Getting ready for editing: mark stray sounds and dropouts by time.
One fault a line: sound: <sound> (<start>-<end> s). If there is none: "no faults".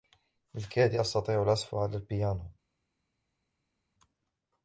no faults